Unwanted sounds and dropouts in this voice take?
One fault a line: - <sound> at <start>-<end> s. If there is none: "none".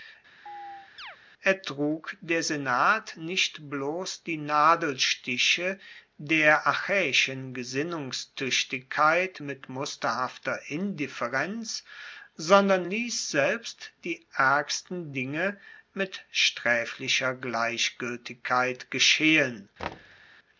- chirp at 0.5-1.2 s
- thud at 19.8-20.3 s